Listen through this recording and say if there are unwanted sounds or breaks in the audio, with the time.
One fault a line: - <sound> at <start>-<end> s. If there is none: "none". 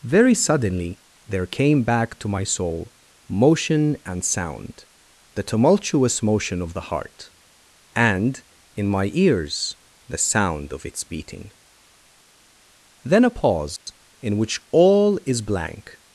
- dropout at 13.8-13.9 s